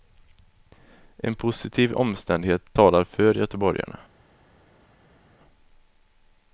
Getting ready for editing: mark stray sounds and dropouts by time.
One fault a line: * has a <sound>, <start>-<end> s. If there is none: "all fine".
all fine